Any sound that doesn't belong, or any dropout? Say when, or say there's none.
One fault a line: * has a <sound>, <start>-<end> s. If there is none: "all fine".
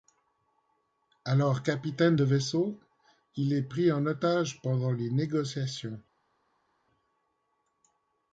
all fine